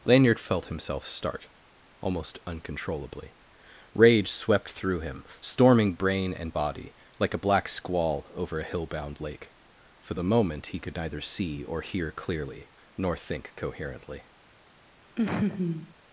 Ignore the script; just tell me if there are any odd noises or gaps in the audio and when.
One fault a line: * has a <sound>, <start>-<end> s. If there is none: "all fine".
* has a laugh, 15.2-15.9 s